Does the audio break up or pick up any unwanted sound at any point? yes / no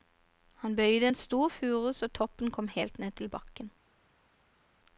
no